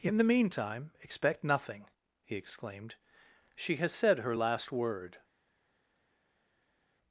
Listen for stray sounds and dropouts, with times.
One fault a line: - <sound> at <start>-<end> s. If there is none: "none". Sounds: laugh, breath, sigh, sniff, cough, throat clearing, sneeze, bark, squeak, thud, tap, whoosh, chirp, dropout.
none